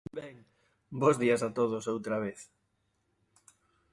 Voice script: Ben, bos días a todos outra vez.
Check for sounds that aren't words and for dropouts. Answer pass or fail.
pass